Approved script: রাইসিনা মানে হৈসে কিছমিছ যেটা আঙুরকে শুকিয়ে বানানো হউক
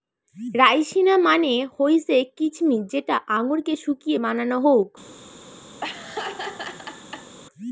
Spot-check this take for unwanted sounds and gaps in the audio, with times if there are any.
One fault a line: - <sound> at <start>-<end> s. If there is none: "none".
- laugh at 5.8-7.4 s